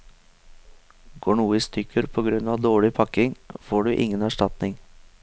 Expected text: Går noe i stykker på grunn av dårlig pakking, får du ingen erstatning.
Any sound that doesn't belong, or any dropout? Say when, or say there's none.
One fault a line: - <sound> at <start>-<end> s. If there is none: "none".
none